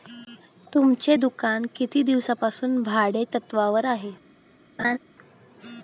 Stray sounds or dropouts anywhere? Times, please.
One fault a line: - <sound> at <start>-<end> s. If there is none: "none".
- laugh at 4.8-5.0 s